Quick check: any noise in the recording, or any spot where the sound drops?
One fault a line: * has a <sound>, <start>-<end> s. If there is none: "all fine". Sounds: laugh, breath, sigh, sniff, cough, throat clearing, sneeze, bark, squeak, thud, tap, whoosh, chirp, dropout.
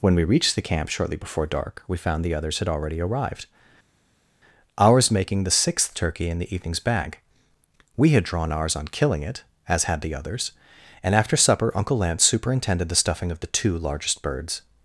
all fine